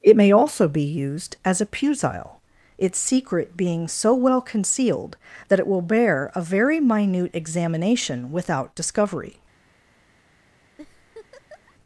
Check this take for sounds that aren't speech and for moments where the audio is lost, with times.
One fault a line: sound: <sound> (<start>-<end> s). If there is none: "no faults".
sound: laugh (10.8-11.7 s)